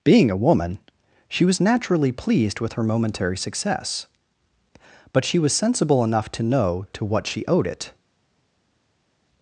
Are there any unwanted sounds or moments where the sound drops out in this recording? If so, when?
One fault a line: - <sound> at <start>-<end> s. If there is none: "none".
none